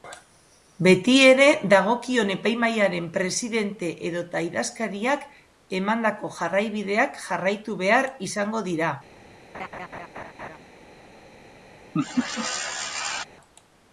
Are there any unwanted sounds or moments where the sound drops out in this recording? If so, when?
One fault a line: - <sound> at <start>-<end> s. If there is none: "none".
- laugh at 9.5-10.6 s
- laugh at 11.9-13.2 s